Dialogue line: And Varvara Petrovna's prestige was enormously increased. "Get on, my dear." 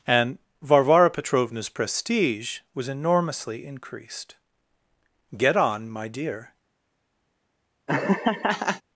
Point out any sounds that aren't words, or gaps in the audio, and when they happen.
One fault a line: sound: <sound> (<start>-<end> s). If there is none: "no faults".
sound: laugh (7.9-8.8 s)